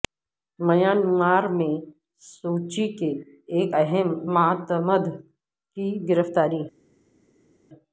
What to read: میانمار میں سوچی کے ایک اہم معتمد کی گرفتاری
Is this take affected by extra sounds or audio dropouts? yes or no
no